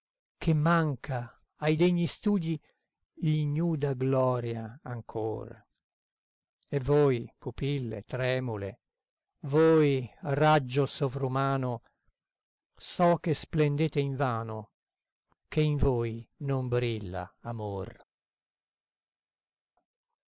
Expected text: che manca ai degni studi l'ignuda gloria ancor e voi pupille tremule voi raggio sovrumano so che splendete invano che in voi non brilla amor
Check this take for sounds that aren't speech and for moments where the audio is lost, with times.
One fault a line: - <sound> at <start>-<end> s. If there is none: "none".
none